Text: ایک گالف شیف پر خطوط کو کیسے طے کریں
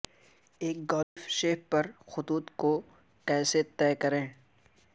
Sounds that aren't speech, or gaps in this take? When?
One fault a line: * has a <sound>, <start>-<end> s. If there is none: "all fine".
* has a dropout, 1.0-1.2 s